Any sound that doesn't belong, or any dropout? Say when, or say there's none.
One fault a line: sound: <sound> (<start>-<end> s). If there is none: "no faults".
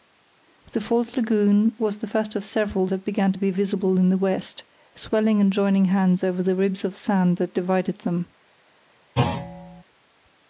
sound: thud (9.2-9.8 s)